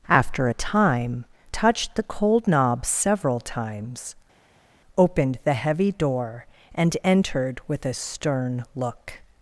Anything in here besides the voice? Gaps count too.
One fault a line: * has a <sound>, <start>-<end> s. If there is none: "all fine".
all fine